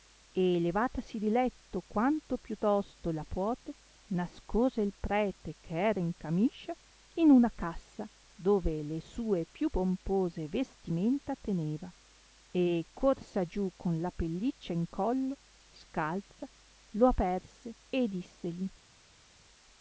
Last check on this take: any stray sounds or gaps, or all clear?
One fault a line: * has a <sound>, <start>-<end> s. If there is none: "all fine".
all fine